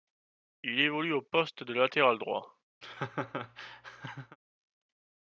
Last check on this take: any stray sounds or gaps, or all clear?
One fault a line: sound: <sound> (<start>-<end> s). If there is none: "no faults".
sound: laugh (2.8-4.4 s)